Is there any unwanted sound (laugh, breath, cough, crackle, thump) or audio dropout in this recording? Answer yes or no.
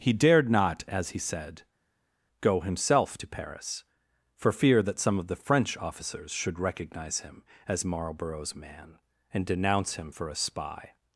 no